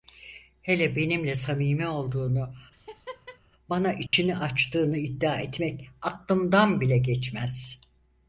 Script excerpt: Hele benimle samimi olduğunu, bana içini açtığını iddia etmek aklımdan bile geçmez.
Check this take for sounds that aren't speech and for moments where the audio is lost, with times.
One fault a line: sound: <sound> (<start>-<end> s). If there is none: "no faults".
sound: laugh (2.7-3.4 s)
sound: dropout (4.1-4.1 s)